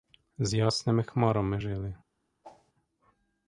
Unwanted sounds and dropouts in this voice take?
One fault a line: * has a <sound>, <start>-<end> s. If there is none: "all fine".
* has a whoosh, 2.4-2.7 s